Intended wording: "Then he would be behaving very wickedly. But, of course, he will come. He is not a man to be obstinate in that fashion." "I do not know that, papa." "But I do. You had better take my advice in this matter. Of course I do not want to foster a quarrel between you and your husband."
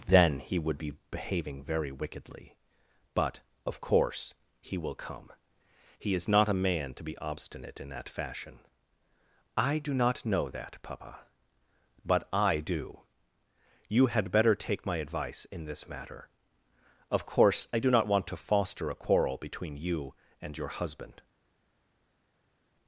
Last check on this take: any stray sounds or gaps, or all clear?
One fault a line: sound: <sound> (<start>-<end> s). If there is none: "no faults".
no faults